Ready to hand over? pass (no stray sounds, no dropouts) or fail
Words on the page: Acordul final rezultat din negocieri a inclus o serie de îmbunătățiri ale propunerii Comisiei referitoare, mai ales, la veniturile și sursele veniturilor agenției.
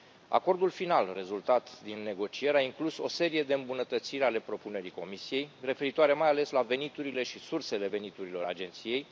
pass